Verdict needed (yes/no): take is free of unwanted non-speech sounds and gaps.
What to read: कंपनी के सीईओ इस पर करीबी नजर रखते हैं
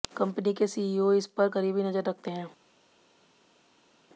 yes